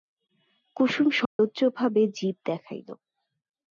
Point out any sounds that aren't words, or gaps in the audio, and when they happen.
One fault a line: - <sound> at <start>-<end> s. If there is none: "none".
- dropout at 1.3-1.4 s